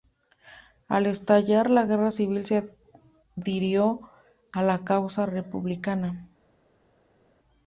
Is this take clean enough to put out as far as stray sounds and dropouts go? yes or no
yes